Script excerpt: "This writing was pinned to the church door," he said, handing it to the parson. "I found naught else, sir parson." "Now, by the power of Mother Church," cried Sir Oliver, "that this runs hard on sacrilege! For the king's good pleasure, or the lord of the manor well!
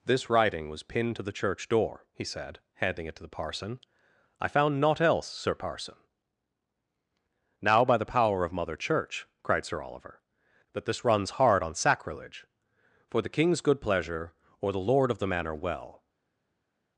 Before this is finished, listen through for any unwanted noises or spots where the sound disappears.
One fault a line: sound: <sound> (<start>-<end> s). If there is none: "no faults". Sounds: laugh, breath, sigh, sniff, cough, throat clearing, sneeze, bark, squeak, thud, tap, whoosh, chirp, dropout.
no faults